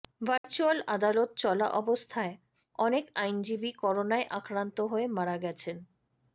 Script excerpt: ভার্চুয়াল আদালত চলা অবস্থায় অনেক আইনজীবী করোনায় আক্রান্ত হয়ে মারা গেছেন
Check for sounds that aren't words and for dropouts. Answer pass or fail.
fail